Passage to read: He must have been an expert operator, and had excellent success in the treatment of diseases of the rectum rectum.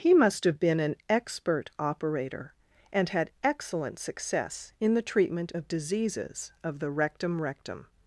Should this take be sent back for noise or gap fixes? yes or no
no